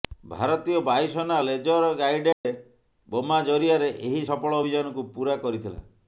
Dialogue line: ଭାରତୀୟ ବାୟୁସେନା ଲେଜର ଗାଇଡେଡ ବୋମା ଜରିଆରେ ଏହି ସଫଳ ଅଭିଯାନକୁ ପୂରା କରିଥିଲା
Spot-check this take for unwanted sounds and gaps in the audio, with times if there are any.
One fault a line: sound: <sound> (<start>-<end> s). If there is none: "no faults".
sound: dropout (2.3-2.5 s)